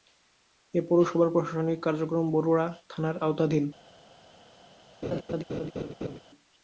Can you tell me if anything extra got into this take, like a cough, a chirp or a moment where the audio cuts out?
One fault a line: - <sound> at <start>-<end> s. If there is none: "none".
- laugh at 5.0-6.2 s